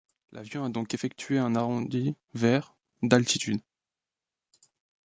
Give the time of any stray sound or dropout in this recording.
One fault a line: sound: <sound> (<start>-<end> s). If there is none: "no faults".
no faults